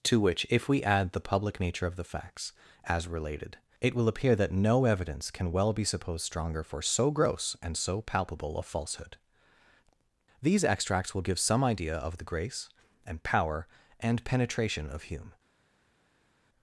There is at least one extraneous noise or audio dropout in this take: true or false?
false